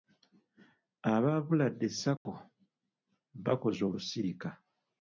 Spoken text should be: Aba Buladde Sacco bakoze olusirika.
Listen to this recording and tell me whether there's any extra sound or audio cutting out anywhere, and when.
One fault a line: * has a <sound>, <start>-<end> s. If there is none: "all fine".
* has a dropout, 2.2-2.3 s